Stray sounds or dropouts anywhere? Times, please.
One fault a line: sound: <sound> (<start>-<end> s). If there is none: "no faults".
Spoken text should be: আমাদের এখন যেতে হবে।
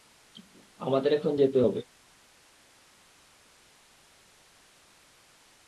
no faults